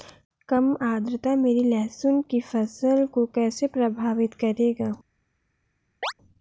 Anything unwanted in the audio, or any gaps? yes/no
yes